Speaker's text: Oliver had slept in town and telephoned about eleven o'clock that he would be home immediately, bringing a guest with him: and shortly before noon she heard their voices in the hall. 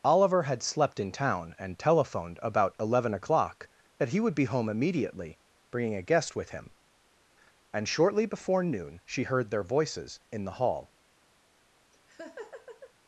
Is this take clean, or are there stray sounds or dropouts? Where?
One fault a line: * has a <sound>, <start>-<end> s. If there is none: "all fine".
* has a laugh, 11.9-12.9 s